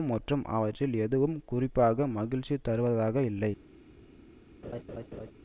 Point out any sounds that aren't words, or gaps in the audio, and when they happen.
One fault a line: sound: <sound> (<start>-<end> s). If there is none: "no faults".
sound: laugh (4.6-5.3 s)